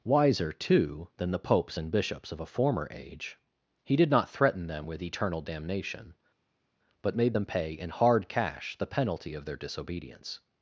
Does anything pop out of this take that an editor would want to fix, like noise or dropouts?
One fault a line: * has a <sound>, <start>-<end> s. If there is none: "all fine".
all fine